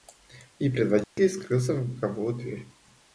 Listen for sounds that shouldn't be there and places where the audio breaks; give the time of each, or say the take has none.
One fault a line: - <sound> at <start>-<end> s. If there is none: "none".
- dropout at 1.0-1.2 s